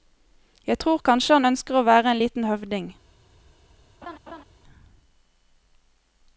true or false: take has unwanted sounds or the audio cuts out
true